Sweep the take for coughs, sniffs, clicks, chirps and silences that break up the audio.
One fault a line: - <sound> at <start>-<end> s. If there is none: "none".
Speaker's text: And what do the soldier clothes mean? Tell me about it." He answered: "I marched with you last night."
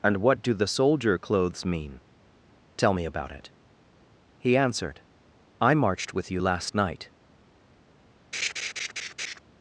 - laugh at 8.3-9.4 s